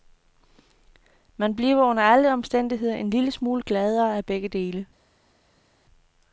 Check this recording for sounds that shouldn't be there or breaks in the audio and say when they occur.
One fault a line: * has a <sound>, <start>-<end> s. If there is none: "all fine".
all fine